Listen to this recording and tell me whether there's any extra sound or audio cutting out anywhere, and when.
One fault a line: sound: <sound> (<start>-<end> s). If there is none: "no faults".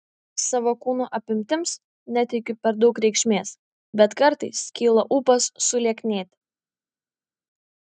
no faults